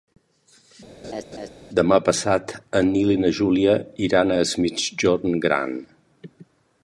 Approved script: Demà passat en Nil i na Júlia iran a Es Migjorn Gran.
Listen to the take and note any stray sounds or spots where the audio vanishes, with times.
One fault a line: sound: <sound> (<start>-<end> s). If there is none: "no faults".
sound: laugh (1.0-1.5 s)